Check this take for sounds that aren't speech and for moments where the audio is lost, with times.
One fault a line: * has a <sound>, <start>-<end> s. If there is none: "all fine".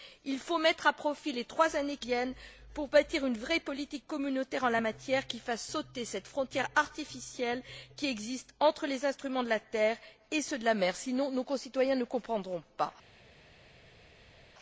all fine